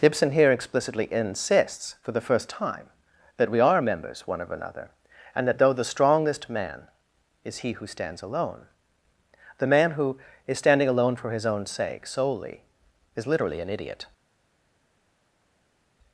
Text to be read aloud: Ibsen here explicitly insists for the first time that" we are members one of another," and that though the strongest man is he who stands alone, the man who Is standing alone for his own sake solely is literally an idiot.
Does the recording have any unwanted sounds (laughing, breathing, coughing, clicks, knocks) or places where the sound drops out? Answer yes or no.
no